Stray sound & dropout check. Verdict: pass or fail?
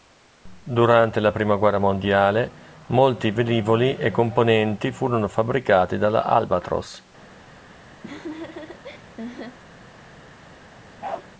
fail